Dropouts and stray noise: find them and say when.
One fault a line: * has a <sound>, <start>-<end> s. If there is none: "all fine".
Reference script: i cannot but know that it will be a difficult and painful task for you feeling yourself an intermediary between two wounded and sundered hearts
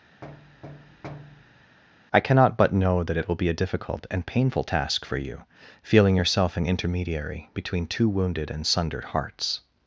* has a thud, 0.2-1.8 s